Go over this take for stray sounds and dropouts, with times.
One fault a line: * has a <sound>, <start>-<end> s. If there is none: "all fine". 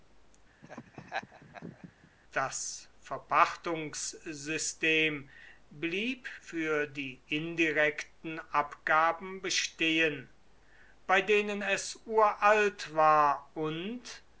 * has a laugh, 0.6-2.1 s